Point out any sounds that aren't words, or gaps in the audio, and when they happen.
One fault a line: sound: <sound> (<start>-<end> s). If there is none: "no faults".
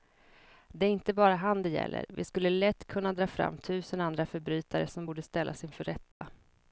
sound: dropout (6.1-6.2 s)